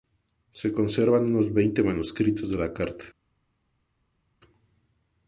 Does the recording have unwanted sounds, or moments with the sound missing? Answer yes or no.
no